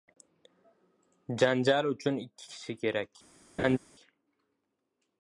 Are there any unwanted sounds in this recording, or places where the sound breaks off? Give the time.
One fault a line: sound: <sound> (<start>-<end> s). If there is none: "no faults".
sound: laugh (3.6-3.8 s)